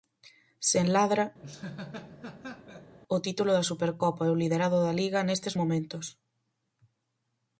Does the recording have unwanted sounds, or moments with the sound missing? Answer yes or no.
yes